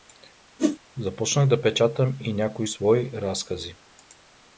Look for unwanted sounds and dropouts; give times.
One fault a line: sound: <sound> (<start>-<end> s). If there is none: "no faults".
sound: whoosh (0.6-0.8 s)